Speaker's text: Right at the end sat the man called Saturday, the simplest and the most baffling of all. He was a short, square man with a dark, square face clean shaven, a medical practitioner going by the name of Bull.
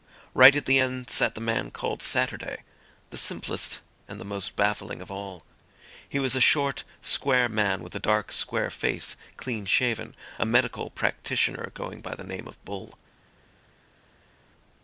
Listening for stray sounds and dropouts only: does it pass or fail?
pass